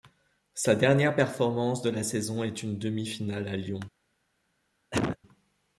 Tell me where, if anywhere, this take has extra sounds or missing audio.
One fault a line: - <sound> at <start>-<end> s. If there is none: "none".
- cough at 4.9-5.2 s